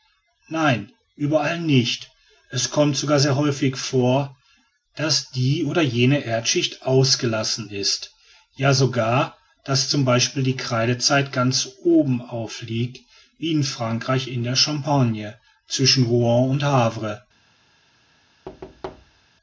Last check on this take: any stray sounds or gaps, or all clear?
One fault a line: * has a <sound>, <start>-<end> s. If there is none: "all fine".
* has a thud, 18.5-19.3 s